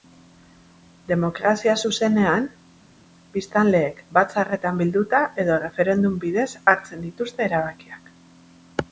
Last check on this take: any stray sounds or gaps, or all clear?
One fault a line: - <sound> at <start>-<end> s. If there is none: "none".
none